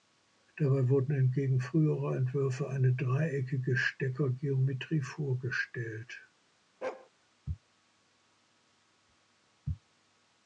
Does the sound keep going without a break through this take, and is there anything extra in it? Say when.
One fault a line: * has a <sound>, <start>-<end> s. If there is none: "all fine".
* has a bark, 6.8-7.1 s